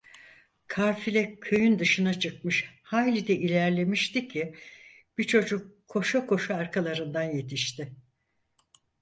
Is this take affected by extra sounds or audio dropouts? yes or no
no